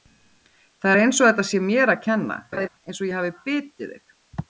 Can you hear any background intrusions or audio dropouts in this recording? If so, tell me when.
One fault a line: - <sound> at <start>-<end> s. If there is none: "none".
- laugh at 2.5-2.7 s